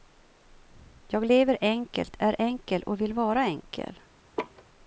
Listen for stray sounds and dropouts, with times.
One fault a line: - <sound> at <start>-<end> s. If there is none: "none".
- laugh at 4.4-4.6 s